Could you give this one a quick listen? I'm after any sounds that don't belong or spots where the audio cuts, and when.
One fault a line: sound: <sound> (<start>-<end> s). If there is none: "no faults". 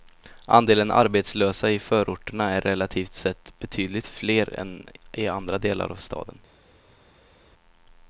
no faults